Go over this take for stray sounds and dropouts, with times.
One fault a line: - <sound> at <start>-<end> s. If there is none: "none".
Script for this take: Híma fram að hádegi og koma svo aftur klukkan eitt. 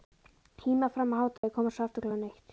- dropout at 1.4-1.4 s